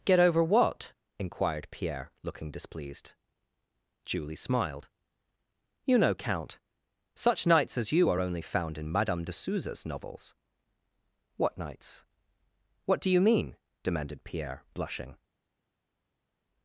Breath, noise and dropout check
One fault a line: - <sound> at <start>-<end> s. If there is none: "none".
none